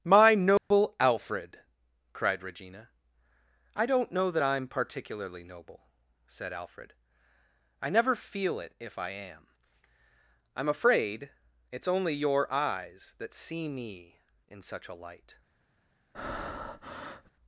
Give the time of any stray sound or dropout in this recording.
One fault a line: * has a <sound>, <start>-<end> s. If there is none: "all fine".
* has a dropout, 0.6-0.7 s
* has a breath, 16.1-17.3 s